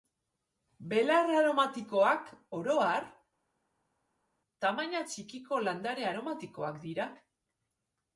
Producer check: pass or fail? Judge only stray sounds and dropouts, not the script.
pass